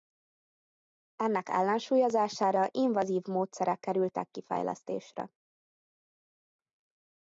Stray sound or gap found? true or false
false